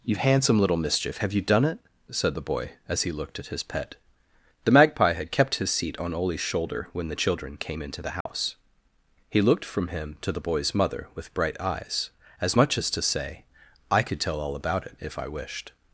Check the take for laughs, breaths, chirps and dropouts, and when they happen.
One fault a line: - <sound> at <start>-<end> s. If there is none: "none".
- dropout at 8.2-8.3 s